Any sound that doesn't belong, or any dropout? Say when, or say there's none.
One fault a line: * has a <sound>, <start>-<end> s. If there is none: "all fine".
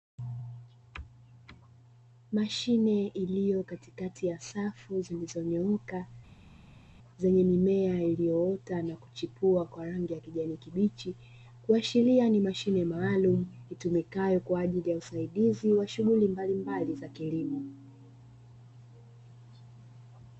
all fine